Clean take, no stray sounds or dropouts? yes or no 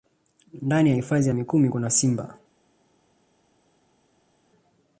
yes